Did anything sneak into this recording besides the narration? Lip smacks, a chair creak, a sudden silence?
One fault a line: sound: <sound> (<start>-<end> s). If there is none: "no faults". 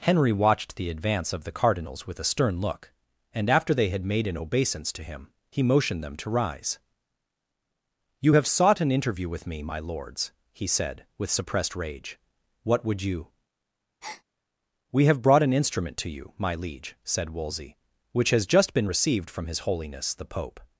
sound: breath (14.0-14.2 s)